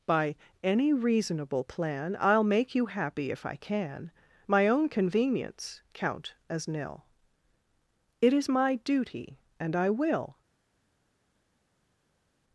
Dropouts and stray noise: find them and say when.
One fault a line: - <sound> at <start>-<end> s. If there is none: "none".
none